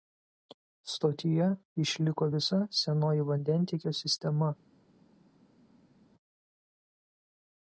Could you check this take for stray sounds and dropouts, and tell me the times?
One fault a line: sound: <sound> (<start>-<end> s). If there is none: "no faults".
no faults